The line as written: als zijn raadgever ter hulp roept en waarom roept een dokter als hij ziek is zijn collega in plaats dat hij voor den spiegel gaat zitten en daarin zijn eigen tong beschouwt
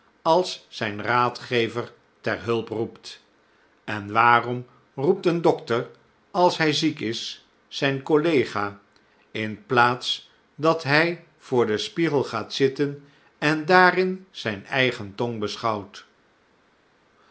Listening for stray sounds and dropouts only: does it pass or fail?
pass